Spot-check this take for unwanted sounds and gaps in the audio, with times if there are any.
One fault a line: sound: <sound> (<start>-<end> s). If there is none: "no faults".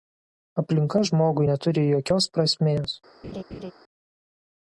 sound: laugh (3.2-3.7 s)